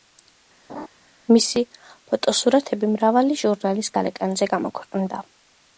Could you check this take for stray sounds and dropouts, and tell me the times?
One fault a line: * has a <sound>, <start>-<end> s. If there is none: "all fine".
* has a laugh, 0.7-0.9 s